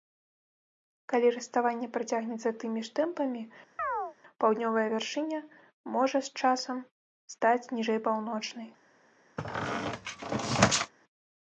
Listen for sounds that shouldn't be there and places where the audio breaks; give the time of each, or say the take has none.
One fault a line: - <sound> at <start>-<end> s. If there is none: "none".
- chirp at 3.8-4.2 s
- squeak at 9.4-10.9 s